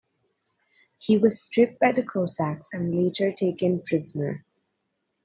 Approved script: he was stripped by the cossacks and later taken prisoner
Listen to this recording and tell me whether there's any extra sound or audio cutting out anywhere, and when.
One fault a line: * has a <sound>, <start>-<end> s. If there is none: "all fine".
all fine